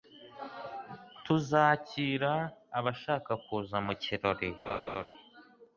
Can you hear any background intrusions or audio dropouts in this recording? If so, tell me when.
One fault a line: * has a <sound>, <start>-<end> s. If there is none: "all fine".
* has a laugh, 4.7-5.1 s